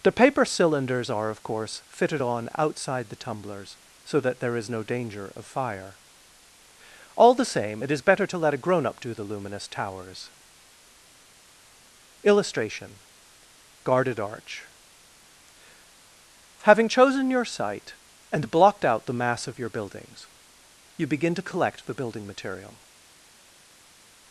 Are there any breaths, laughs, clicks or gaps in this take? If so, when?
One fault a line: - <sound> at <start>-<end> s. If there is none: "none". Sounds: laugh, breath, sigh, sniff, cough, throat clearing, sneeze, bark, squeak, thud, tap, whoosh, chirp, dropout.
none